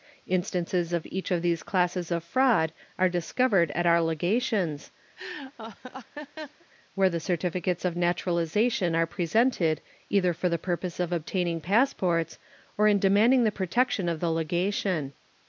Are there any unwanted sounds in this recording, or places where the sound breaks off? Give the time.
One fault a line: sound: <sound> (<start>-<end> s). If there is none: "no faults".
sound: laugh (5.2-6.7 s)